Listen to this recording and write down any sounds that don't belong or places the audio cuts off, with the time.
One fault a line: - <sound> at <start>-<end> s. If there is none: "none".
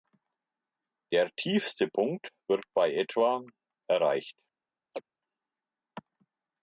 - chirp at 4.9-5.0 s